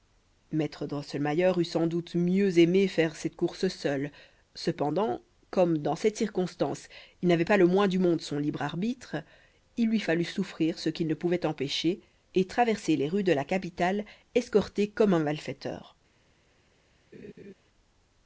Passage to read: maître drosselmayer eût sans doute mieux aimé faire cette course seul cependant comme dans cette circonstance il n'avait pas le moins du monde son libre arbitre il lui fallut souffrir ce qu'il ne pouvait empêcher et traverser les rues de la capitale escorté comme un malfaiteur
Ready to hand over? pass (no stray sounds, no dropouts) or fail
fail